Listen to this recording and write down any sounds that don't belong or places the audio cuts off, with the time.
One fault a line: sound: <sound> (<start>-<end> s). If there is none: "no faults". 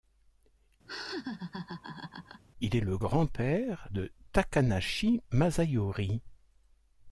sound: laugh (0.9-2.4 s)